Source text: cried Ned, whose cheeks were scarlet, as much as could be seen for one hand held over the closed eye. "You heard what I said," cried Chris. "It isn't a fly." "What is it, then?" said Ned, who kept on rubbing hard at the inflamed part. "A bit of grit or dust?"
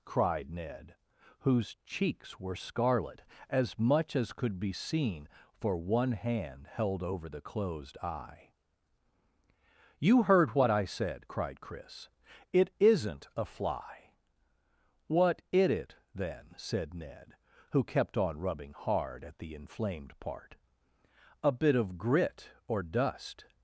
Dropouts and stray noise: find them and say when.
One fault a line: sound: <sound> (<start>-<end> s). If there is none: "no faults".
no faults